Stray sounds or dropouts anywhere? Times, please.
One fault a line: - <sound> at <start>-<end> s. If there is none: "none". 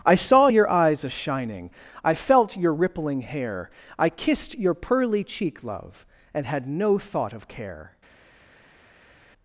none